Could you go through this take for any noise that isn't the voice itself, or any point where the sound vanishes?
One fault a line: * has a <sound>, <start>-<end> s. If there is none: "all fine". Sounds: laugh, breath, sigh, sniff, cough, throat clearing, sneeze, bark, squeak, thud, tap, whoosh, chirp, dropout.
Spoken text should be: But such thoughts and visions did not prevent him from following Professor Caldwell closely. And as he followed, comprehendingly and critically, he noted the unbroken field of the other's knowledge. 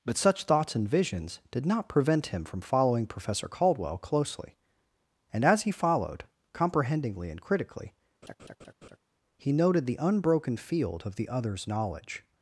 * has a laugh, 8.2-9.0 s